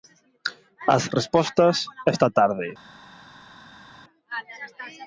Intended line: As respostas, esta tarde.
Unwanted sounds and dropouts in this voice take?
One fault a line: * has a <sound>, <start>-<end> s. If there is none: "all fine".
all fine